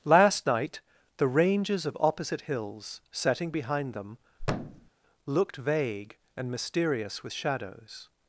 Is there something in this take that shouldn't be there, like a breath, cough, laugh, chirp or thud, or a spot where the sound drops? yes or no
yes